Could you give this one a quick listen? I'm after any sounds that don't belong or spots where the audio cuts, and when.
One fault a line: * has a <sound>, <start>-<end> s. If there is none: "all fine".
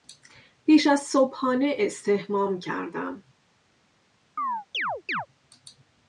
* has a chirp, 4.4-5.3 s